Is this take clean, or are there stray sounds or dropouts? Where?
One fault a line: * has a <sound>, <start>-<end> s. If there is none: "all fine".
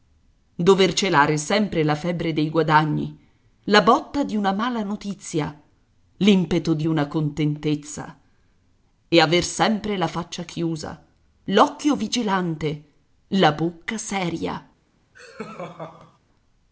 * has a laugh, 15.1-16.2 s